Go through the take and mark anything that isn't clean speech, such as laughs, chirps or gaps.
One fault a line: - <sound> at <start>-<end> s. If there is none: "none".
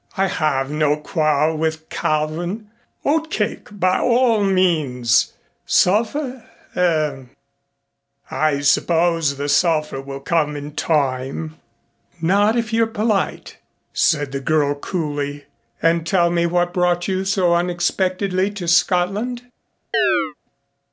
- chirp at 19.9-20.3 s